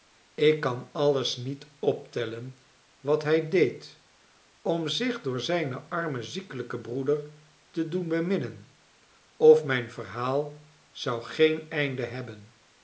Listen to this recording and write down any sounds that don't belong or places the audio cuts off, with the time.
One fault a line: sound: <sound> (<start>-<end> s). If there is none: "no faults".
no faults